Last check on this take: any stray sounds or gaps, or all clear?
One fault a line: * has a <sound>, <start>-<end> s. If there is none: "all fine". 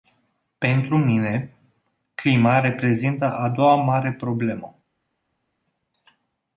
all fine